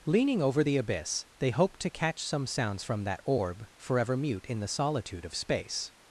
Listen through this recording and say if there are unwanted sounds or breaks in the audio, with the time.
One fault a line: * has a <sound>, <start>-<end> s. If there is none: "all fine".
all fine